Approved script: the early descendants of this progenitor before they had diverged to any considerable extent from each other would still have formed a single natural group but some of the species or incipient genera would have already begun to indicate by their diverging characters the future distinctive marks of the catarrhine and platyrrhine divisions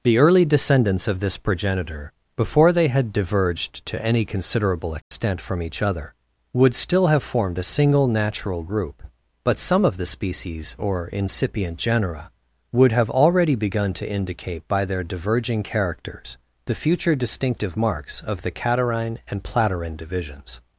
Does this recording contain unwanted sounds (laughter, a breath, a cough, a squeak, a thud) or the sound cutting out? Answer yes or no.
yes